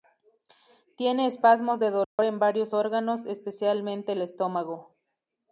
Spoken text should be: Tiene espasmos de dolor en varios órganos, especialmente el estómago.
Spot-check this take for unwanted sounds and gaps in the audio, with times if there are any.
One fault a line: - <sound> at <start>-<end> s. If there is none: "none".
- dropout at 2.0-2.2 s